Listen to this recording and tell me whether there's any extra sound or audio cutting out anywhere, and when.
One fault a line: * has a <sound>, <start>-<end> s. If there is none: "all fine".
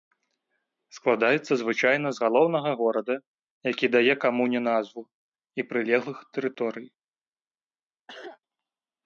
* has a cough, 8.1-8.4 s